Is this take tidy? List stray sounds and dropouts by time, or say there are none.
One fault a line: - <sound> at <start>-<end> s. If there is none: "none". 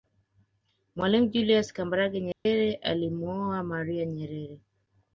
- dropout at 2.3-2.5 s